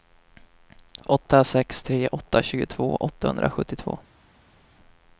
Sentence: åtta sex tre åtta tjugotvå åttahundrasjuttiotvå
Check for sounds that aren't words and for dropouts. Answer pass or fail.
pass